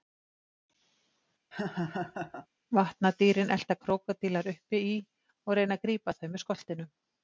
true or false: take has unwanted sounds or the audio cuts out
true